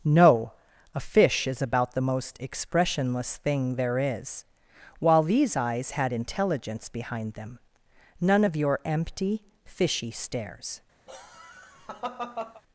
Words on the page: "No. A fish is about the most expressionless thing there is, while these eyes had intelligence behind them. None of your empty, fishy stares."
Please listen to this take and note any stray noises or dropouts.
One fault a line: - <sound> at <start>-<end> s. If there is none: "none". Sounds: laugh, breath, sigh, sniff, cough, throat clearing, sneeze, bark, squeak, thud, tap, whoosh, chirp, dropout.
- laugh at 11.1-12.6 s